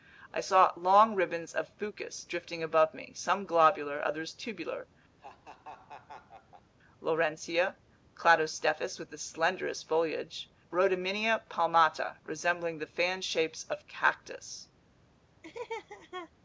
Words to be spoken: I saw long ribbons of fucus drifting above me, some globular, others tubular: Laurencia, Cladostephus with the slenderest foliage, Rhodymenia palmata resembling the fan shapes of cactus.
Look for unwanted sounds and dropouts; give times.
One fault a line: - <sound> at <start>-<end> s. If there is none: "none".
- laugh at 5.2-6.7 s
- laugh at 15.4-16.3 s